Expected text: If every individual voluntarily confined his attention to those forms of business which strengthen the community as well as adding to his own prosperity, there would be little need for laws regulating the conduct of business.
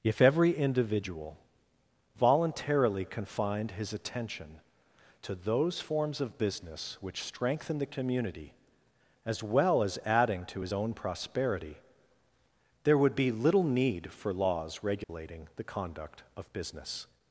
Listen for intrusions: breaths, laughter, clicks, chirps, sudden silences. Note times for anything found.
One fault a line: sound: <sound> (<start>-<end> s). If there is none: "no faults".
sound: dropout (15.0-15.1 s)